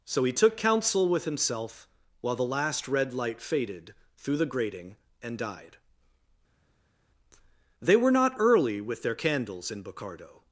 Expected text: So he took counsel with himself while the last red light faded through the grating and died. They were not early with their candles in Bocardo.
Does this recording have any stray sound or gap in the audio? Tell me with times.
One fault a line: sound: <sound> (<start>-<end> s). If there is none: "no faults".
no faults